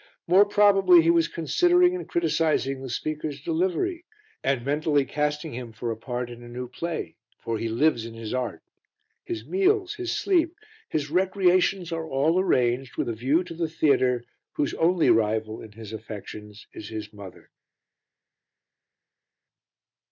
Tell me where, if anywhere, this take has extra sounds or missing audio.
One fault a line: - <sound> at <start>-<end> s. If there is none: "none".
none